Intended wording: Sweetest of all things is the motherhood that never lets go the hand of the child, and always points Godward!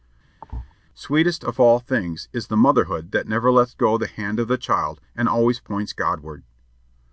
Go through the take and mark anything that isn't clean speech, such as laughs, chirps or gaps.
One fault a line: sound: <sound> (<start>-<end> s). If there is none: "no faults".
sound: thud (0.4-0.7 s)